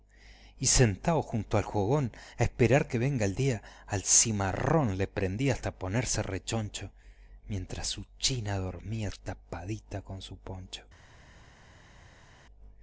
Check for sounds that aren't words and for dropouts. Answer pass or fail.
pass